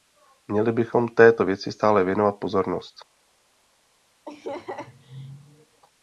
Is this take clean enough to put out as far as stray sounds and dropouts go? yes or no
no